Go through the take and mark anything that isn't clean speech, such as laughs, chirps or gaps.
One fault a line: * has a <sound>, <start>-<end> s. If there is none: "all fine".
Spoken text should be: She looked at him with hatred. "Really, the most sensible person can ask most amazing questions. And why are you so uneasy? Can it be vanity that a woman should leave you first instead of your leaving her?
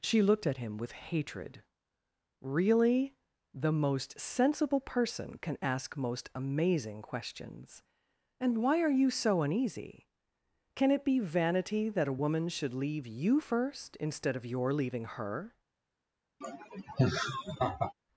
* has a laugh, 16.4-17.9 s